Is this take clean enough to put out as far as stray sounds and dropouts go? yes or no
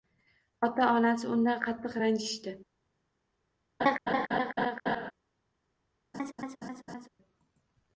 no